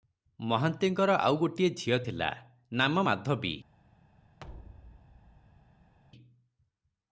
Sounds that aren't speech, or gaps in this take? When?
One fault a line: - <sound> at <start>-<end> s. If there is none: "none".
- thud at 4.4-5.9 s